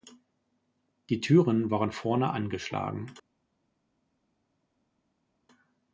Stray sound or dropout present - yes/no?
no